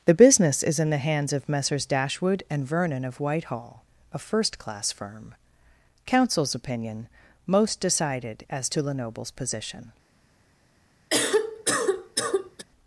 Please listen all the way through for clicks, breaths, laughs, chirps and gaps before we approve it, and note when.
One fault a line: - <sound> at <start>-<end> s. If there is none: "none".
- cough at 11.1-12.7 s